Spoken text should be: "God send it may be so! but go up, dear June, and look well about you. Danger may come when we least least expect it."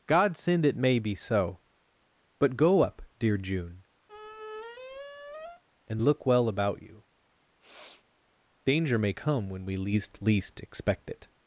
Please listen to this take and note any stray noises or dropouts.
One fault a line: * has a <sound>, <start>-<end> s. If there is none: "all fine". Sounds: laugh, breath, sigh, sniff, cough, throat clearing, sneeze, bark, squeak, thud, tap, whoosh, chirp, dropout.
* has a squeak, 4.1-5.6 s
* has a sniff, 7.6-8.0 s